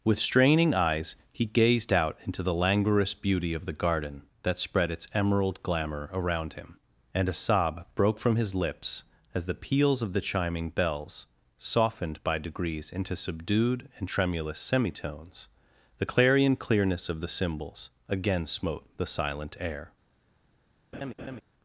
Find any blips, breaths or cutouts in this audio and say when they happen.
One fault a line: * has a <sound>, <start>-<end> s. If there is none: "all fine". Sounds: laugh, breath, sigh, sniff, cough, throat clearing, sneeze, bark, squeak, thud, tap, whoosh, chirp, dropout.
* has a laugh, 20.9-21.4 s